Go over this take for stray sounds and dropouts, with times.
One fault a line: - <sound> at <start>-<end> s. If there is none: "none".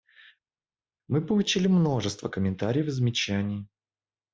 none